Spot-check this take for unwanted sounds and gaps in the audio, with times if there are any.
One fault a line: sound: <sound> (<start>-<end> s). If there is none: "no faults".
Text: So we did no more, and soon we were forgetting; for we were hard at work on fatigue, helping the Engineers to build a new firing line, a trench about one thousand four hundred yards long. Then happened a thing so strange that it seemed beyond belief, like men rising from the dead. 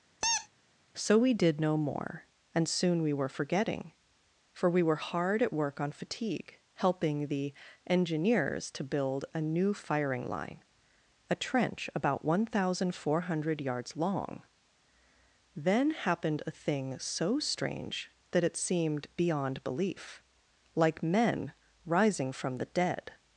sound: squeak (0.2-0.5 s)